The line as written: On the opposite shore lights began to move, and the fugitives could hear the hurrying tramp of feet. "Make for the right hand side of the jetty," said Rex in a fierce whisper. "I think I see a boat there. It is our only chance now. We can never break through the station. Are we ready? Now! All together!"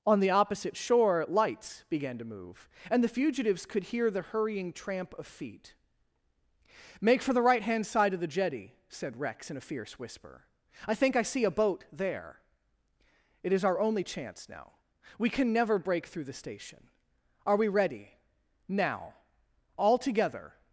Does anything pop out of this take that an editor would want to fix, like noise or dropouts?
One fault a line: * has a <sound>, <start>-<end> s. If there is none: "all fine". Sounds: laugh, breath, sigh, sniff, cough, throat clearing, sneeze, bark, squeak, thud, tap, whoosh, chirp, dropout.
all fine